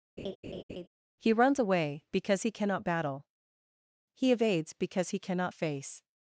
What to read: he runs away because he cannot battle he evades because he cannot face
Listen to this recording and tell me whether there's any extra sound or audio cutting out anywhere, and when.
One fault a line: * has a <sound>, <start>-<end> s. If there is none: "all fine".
* has a laugh, 0.2-0.9 s